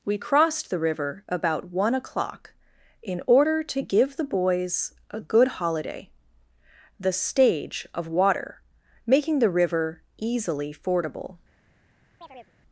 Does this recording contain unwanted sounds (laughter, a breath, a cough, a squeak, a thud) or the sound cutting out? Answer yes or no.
yes